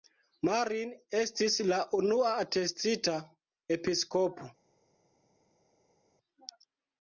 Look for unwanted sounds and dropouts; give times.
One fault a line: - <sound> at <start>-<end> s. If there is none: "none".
none